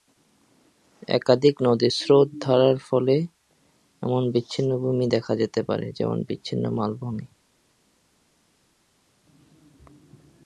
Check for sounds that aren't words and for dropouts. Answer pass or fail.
pass